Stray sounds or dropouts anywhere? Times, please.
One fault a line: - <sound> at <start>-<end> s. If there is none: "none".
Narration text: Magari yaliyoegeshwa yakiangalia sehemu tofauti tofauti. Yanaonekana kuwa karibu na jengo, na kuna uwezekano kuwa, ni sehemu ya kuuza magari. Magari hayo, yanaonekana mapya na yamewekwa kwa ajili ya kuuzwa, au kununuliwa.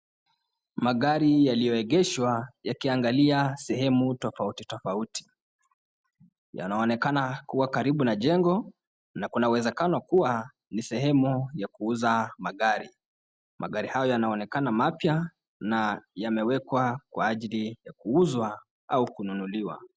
none